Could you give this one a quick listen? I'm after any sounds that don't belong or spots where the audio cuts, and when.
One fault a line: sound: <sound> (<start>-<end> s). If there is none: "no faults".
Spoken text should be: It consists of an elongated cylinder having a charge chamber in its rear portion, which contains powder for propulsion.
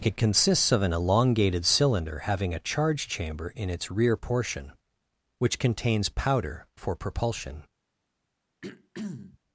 sound: throat clearing (8.6-9.4 s)